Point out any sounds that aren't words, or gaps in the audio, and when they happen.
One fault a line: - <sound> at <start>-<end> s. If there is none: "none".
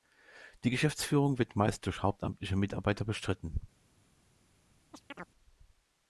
- chirp at 4.9-5.3 s